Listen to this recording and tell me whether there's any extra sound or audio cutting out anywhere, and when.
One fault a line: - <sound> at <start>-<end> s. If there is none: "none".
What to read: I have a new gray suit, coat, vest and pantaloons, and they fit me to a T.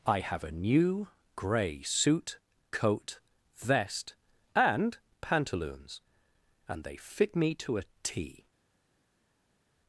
none